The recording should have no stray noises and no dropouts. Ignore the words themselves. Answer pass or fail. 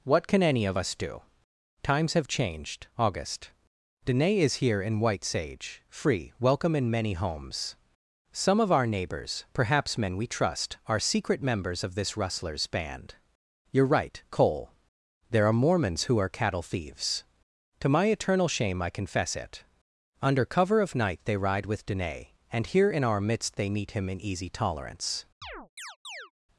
fail